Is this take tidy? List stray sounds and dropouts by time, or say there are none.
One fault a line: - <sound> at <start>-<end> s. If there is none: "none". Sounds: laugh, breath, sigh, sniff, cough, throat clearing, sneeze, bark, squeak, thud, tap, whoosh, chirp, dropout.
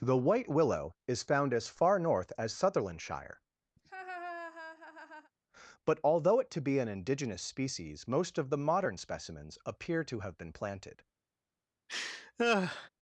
- laugh at 3.8-5.3 s
- laugh at 11.9-12.9 s